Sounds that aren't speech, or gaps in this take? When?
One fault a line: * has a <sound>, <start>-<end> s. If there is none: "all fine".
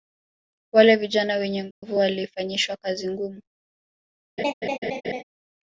* has a dropout, 1.7-1.8 s
* has a laugh, 4.4-5.2 s